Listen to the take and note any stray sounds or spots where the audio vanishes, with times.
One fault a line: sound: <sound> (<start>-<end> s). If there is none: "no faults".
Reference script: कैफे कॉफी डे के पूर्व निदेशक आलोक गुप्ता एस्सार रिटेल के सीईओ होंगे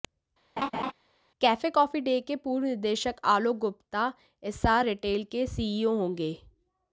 sound: laugh (0.6-0.9 s)